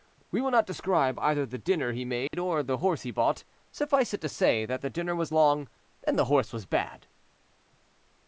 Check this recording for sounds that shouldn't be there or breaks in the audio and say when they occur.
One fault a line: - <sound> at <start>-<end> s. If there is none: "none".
- dropout at 2.3-2.3 s